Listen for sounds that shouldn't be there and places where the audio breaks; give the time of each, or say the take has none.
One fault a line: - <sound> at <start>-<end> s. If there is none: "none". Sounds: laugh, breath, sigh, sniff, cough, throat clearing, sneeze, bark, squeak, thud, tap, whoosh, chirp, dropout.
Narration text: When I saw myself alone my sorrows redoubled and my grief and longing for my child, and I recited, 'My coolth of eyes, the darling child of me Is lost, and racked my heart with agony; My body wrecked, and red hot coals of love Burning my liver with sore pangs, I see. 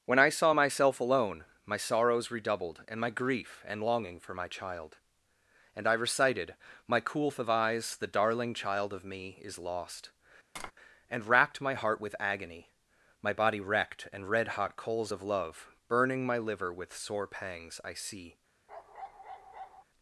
- tap at 10.6-10.7 s
- bark at 18.7-19.8 s